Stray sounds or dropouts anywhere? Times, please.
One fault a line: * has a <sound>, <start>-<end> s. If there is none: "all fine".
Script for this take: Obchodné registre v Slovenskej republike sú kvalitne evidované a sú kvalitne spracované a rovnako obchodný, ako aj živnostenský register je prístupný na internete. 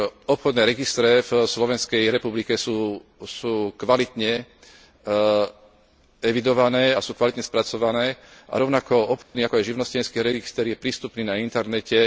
* has a dropout, 9.2-9.3 s